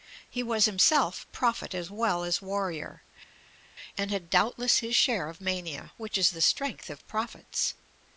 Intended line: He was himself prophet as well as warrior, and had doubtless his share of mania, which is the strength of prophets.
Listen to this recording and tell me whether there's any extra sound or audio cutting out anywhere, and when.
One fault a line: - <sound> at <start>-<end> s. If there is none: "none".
none